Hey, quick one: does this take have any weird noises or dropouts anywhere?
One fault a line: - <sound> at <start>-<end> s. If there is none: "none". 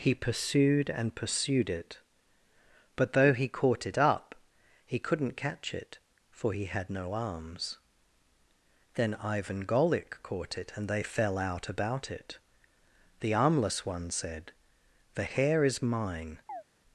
- chirp at 16.5-16.6 s